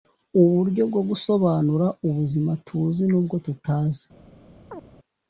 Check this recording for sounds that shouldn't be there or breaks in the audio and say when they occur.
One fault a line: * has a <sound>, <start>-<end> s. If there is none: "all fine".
* has a chirp, 4.7-4.9 s